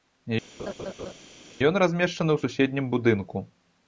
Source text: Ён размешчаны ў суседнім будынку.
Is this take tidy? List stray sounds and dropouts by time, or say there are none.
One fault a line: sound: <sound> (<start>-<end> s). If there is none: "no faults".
sound: laugh (0.6-1.1 s)